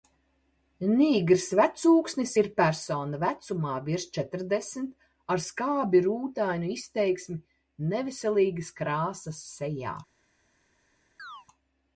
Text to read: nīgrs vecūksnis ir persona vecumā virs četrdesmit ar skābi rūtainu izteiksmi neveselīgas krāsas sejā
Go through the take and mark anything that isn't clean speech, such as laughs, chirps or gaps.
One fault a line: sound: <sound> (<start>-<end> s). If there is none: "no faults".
sound: chirp (11.2-11.5 s)